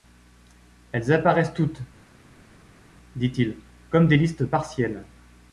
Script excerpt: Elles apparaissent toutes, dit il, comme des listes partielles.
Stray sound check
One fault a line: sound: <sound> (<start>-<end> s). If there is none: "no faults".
no faults